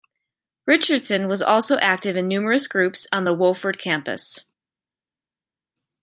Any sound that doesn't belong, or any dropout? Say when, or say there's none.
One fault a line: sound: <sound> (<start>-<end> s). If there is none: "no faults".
no faults